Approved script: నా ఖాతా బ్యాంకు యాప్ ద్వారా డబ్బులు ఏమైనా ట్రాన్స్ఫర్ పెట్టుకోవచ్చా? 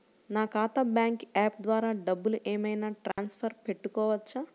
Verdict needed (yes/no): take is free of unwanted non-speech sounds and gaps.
no